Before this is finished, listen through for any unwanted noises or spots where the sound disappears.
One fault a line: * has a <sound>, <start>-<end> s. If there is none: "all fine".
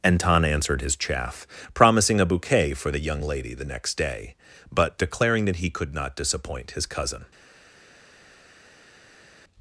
all fine